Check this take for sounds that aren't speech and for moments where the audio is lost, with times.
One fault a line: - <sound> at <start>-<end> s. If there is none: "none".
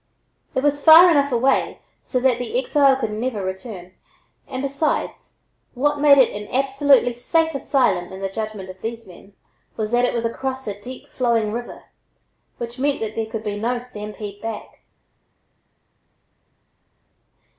none